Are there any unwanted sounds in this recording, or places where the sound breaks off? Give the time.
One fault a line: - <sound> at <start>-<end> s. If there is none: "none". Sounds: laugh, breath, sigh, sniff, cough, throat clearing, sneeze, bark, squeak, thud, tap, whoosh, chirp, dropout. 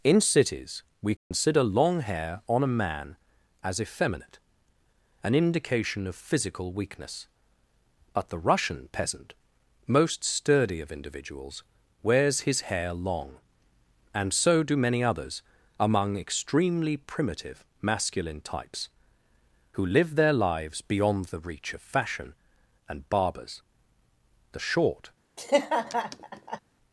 - dropout at 1.2-1.3 s
- laugh at 25.4-26.6 s